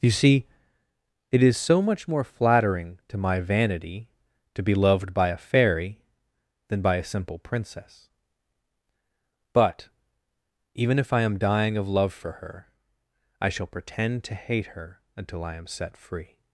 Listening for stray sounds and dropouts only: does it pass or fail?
pass